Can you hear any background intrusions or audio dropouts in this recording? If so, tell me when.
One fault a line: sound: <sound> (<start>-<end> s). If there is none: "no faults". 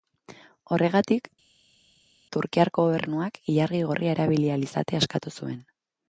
no faults